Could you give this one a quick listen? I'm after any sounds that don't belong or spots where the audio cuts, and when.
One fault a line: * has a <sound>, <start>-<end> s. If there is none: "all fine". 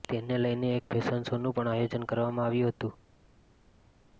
all fine